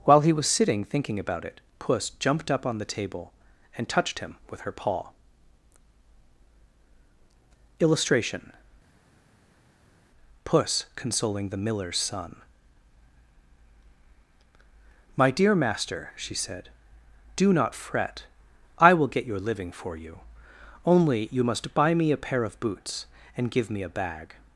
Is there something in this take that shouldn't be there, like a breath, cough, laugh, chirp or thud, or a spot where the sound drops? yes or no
no